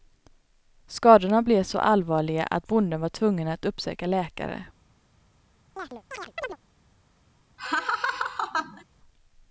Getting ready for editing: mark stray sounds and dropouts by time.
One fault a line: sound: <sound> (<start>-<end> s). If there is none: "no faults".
sound: chirp (5.8-6.6 s)
sound: laugh (7.6-8.8 s)